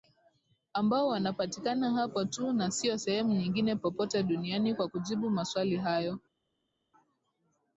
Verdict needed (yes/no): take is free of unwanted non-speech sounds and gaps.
yes